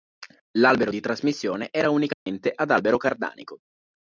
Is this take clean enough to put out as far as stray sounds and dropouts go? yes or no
no